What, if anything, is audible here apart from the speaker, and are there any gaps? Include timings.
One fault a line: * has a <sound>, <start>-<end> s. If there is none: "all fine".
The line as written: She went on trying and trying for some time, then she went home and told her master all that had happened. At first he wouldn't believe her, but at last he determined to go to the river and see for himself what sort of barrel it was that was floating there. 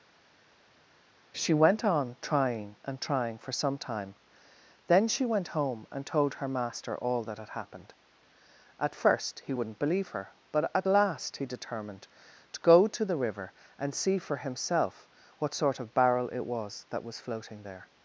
all fine